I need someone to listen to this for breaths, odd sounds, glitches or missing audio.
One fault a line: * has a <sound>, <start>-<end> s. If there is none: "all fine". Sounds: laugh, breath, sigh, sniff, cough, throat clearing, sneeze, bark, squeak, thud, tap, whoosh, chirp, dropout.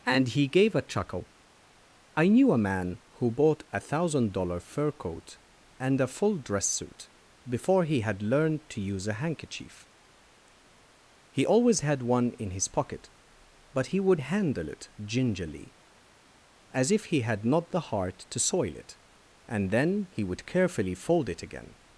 all fine